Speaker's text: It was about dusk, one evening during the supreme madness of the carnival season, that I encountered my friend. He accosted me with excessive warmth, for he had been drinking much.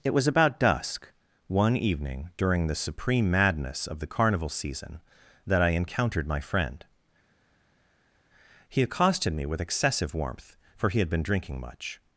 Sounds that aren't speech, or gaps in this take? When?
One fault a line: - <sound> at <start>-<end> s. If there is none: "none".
none